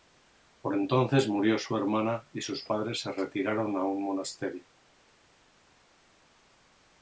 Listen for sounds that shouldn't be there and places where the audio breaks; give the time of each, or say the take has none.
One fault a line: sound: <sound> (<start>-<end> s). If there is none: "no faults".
no faults